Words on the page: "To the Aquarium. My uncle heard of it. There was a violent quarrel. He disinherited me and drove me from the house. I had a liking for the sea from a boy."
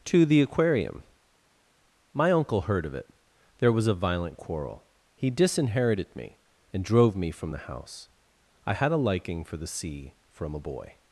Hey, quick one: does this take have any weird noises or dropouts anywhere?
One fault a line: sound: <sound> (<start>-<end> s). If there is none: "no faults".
no faults